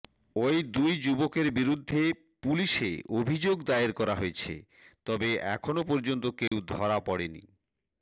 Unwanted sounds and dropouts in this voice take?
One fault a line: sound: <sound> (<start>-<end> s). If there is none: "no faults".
sound: dropout (6.5-6.5 s)